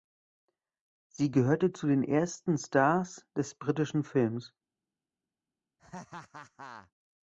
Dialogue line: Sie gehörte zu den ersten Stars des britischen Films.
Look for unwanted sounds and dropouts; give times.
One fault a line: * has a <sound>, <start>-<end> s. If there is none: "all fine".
* has a laugh, 5.8-6.9 s